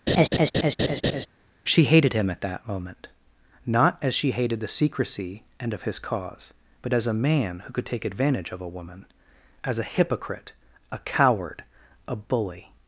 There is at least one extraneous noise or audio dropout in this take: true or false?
true